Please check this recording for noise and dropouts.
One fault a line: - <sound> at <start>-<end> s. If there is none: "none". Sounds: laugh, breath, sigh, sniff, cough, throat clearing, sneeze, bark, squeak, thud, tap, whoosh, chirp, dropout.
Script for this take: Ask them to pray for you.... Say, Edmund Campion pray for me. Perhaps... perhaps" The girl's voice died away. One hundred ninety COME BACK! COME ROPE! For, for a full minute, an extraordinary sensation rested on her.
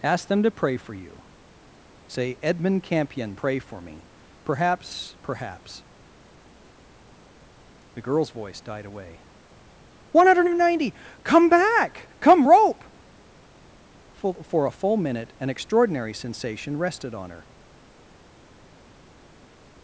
none